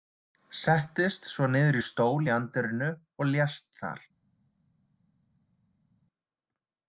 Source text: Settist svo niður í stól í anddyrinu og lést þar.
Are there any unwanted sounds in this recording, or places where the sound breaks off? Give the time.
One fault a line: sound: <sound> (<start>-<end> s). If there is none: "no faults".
no faults